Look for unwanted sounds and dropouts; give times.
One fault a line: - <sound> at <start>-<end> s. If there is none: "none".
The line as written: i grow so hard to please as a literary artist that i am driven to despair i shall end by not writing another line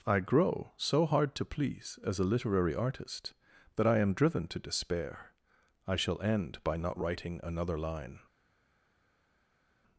none